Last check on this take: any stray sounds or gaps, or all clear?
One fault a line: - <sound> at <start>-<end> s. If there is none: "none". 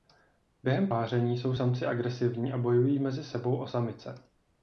none